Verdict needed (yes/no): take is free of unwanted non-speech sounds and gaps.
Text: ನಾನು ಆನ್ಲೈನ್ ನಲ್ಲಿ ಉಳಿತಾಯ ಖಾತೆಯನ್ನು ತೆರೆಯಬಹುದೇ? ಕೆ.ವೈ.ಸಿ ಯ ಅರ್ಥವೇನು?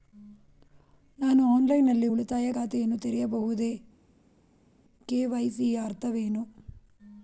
yes